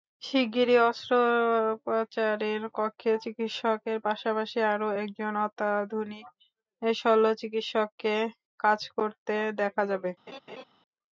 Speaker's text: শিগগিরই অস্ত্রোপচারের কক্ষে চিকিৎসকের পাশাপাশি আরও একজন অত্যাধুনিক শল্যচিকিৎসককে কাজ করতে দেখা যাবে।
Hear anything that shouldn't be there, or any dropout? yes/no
yes